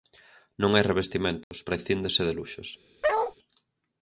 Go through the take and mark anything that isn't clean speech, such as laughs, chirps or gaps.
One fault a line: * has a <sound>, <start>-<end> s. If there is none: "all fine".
* has a dropout, 1.4-1.5 s
* has a bark, 3.0-3.3 s